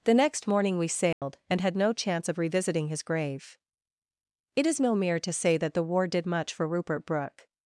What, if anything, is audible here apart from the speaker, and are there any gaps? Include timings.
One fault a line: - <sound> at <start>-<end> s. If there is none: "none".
- dropout at 1.1-1.2 s